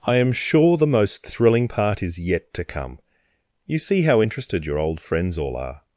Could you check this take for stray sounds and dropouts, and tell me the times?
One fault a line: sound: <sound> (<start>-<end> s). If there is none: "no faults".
no faults